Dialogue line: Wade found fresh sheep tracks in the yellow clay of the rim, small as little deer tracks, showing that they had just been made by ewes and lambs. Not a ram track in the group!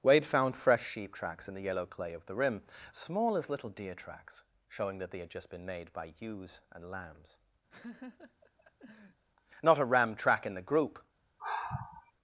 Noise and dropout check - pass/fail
fail